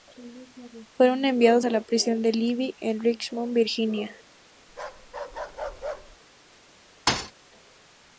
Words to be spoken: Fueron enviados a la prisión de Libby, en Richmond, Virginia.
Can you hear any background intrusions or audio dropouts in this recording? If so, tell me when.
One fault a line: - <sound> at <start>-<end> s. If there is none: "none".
- bark at 4.7-6.2 s
- thud at 7.1-7.3 s